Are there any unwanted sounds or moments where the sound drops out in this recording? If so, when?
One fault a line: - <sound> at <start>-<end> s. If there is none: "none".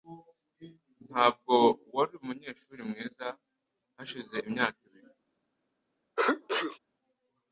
- sneeze at 6.2-6.8 s